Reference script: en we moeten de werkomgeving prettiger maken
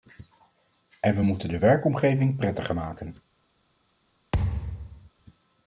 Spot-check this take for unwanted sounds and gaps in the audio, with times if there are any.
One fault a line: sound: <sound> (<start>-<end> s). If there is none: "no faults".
sound: thud (4.3-5.1 s)